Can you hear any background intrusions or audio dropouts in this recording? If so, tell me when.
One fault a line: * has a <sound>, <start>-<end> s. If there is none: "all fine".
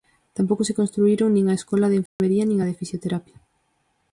* has a dropout, 2.1-2.2 s